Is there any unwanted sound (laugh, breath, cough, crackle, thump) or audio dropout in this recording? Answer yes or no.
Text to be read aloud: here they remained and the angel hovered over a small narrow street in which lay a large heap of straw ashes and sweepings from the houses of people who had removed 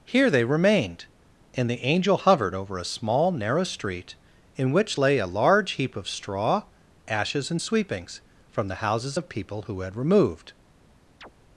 yes